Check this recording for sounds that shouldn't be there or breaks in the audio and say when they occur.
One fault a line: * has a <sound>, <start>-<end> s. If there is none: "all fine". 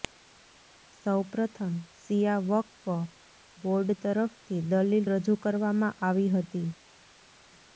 all fine